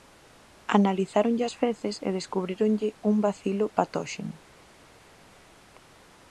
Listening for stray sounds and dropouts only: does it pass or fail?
pass